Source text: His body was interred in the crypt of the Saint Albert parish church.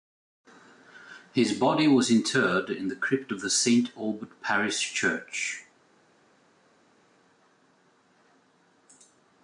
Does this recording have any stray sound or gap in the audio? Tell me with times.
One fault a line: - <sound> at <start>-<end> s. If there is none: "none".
none